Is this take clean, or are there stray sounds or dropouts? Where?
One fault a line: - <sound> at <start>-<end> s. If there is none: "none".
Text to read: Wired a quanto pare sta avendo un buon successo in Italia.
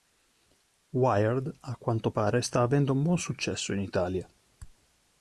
none